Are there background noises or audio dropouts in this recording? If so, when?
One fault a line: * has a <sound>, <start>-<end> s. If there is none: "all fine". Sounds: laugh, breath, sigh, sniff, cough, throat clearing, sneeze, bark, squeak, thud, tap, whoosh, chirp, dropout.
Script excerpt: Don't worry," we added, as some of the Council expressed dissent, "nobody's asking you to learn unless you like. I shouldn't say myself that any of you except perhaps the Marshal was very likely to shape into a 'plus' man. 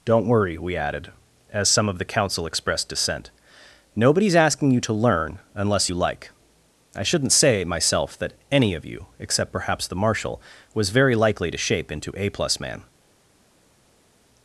all fine